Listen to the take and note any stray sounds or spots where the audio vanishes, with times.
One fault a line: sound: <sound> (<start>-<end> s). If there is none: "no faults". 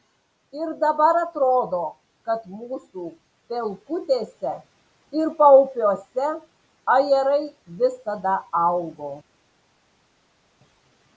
no faults